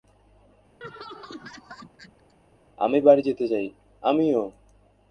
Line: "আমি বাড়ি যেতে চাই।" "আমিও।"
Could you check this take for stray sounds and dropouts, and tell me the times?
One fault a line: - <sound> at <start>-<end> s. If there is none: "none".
- laugh at 0.8-2.3 s